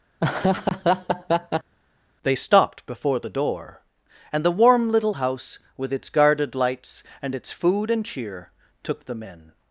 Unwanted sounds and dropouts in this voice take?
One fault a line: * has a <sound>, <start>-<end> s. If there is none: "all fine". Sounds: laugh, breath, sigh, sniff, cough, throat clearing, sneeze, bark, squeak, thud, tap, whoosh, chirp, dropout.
* has a laugh, 0.2-1.7 s